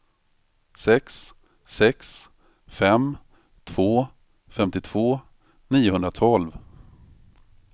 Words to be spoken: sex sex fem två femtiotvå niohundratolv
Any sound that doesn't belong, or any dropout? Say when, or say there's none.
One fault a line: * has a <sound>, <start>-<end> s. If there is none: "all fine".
all fine